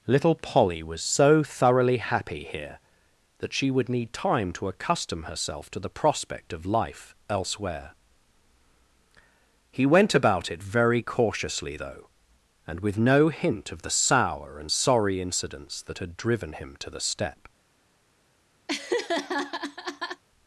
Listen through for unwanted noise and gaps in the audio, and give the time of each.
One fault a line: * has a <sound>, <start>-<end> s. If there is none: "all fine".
* has a laugh, 18.7-20.2 s